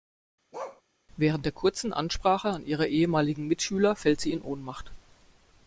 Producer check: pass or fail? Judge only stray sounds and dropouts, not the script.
fail